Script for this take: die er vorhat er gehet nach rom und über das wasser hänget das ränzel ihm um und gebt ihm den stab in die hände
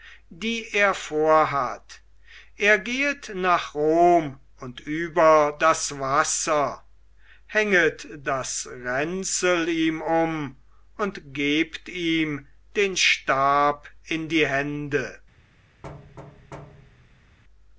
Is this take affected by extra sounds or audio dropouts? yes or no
yes